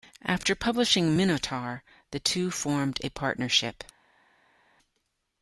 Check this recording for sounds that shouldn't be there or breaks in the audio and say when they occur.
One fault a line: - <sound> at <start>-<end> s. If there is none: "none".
none